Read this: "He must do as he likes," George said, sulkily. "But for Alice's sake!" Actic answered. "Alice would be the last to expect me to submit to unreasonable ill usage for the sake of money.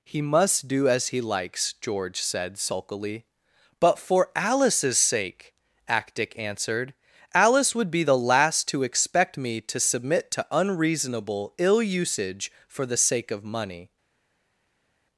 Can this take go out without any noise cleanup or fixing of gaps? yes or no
yes